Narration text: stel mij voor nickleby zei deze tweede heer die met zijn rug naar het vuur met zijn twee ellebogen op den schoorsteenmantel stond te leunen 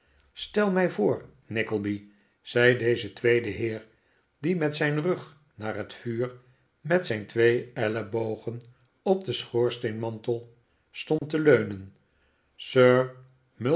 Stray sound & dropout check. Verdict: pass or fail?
fail